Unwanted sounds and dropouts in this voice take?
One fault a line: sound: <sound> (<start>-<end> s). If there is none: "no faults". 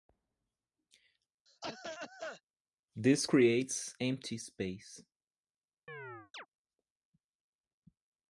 sound: cough (1.5-2.4 s)
sound: chirp (5.9-6.5 s)